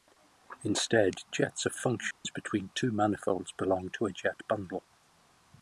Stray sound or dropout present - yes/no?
yes